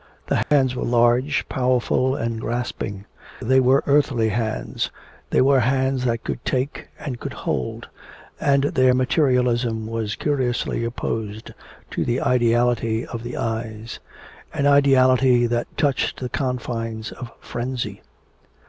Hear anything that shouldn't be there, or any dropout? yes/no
yes